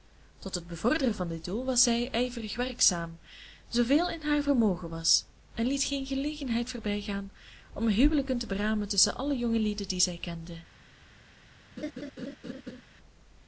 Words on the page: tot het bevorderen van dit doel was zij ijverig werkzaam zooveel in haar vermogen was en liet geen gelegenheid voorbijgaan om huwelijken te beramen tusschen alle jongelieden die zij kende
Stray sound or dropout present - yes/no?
yes